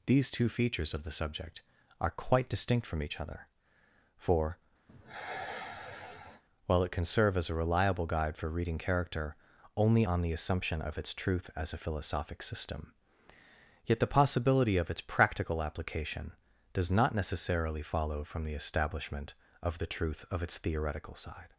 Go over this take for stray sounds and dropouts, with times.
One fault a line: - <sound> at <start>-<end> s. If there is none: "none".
- sigh at 4.9-6.4 s